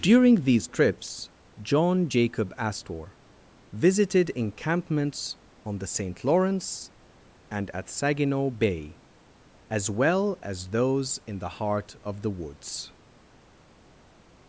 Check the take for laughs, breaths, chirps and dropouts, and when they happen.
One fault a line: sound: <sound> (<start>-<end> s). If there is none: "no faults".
no faults